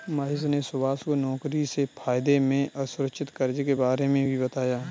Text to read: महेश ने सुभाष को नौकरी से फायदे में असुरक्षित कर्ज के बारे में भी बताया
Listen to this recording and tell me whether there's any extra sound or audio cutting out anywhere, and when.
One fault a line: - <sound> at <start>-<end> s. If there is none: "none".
none